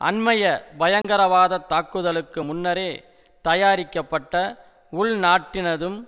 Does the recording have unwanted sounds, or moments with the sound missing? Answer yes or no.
yes